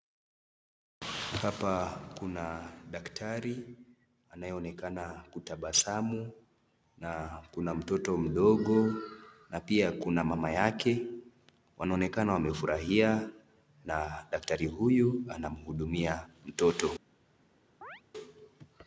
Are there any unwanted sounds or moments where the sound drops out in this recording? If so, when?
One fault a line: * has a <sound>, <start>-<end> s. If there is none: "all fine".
* has a chirp, 17.8-18.0 s